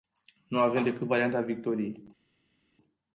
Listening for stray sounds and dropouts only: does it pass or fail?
pass